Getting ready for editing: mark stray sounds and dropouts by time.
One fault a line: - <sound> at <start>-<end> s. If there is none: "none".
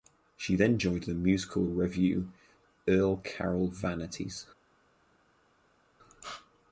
none